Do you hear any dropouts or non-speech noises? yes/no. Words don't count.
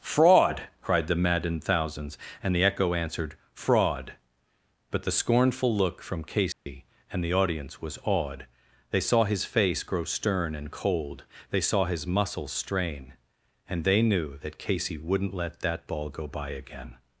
yes